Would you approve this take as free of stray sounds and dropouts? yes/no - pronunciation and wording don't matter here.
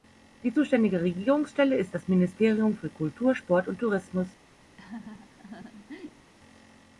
no